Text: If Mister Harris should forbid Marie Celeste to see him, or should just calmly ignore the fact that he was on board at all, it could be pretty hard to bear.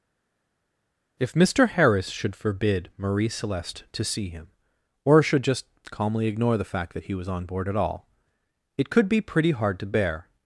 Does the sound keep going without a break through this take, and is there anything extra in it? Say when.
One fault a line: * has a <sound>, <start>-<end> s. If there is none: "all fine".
all fine